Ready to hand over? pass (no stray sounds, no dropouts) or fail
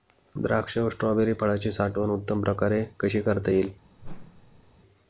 fail